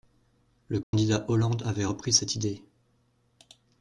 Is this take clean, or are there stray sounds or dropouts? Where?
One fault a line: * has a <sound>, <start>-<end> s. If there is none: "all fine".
* has a dropout, 0.8-0.9 s